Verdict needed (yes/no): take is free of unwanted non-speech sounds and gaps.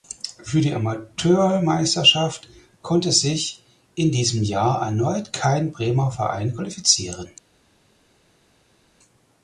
yes